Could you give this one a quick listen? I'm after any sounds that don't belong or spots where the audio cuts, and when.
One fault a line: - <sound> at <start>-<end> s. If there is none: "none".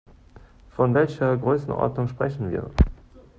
none